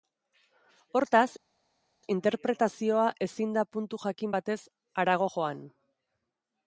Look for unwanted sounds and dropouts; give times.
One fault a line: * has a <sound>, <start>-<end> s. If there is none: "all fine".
all fine